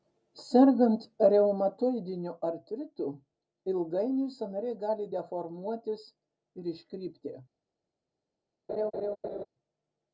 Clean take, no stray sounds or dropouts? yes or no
no